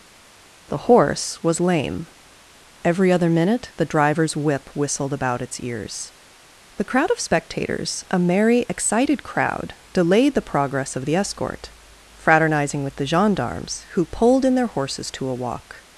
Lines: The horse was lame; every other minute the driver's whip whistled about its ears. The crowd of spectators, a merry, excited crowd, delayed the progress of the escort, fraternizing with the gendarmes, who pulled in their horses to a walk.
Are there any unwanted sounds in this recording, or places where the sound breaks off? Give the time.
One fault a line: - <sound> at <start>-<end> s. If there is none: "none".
none